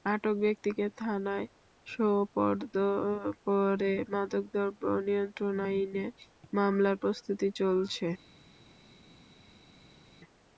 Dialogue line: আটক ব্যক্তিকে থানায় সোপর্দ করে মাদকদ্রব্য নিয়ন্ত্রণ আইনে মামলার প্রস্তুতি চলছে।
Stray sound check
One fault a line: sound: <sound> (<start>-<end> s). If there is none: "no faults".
no faults